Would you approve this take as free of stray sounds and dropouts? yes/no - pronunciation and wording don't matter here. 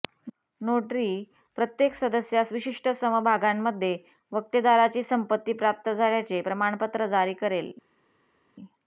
yes